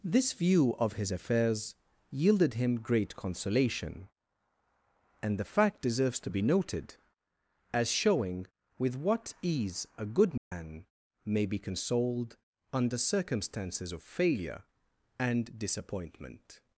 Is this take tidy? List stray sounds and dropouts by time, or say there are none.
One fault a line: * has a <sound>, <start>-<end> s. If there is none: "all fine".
* has a dropout, 10.4-10.5 s